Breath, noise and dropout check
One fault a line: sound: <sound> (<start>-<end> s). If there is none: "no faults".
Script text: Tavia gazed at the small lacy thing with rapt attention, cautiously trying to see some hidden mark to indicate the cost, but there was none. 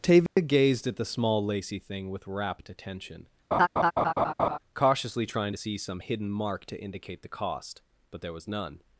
sound: dropout (0.3-0.4 s)
sound: laugh (3.5-4.6 s)